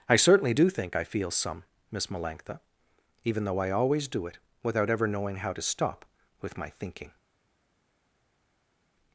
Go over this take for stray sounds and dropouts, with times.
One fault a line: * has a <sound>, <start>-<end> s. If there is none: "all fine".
all fine